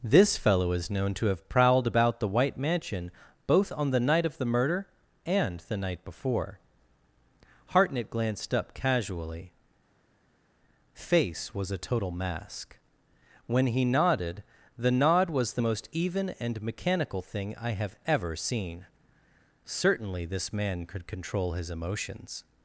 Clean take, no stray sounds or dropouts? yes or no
yes